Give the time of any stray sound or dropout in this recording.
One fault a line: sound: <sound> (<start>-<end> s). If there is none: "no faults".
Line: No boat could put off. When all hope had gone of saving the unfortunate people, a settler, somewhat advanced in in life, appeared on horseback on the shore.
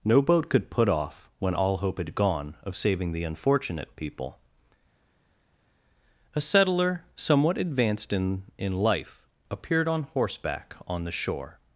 no faults